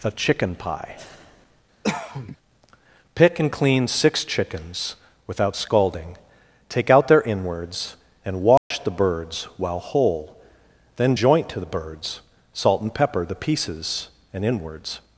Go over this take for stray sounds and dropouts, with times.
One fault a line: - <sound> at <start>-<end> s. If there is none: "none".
- cough at 1.8-2.4 s
- dropout at 8.6-8.7 s